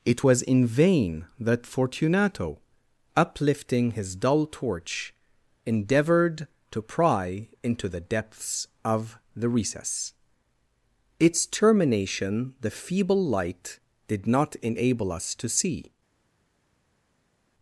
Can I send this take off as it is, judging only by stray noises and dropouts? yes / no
yes